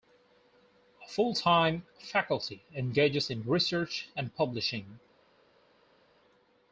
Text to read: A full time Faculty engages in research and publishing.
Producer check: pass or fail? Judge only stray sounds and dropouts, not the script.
pass